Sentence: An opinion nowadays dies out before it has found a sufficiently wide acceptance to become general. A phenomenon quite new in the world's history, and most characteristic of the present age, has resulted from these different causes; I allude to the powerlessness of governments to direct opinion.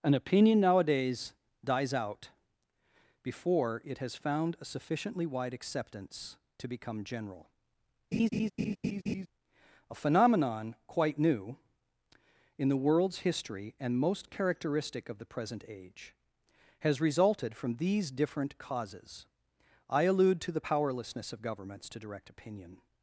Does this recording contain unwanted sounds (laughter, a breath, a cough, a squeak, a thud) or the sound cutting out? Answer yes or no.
yes